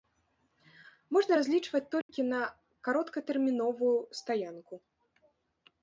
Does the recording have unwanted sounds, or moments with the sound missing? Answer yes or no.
yes